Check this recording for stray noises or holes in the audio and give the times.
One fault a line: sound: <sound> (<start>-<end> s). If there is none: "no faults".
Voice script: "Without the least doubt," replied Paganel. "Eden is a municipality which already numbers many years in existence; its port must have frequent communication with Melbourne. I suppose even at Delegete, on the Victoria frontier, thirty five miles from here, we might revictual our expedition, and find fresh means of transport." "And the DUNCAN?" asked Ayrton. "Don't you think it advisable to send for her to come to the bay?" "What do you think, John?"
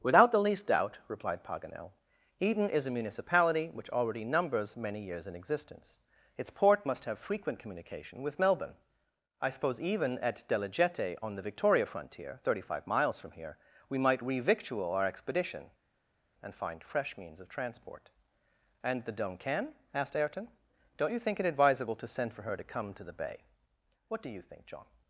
no faults